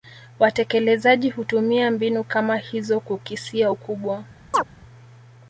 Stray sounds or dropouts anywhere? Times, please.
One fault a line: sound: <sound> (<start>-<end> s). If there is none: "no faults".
sound: chirp (4.5-4.6 s)